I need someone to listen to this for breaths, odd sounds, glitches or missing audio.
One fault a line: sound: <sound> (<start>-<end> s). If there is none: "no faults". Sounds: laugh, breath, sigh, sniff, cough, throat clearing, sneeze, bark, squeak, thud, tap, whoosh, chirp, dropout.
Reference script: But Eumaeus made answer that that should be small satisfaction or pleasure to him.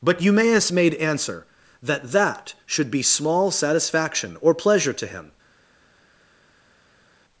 no faults